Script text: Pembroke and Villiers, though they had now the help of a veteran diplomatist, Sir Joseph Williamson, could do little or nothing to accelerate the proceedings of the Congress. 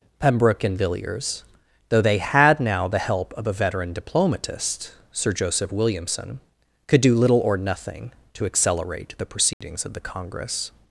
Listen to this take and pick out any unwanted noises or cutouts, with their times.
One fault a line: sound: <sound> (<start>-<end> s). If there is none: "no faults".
sound: dropout (9.5-9.6 s)